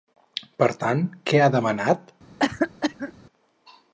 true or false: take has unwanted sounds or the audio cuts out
true